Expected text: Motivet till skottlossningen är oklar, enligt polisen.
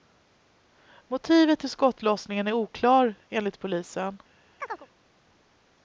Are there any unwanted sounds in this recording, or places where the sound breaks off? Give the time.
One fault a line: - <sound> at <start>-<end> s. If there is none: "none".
- chirp at 4.6-4.9 s